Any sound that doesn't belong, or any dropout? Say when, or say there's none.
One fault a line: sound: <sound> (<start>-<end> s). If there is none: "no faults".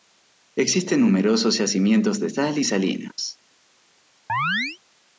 sound: chirp (4.3-4.8 s)